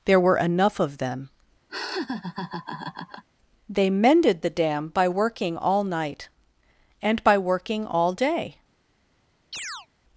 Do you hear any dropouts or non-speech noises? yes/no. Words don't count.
yes